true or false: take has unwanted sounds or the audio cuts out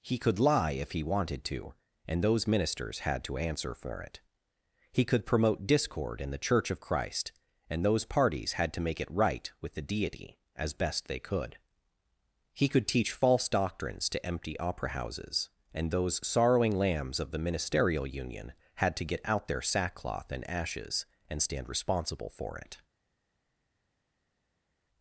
false